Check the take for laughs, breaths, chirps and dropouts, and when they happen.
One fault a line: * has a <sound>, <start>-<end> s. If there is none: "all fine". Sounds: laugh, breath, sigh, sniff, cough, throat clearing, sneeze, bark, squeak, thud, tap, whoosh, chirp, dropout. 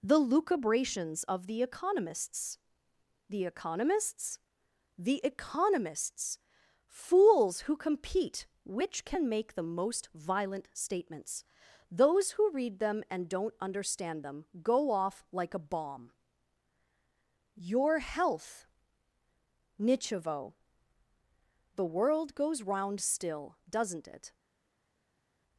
all fine